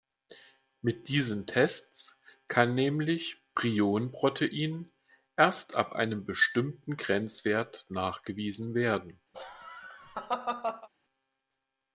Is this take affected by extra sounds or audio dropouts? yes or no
yes